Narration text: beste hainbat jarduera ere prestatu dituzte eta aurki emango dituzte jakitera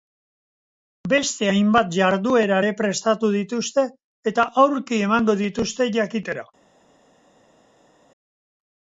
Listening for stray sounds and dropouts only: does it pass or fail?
pass